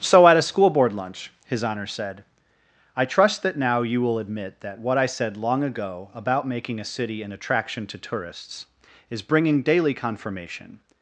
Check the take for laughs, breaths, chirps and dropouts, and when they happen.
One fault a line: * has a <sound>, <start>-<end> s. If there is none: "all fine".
all fine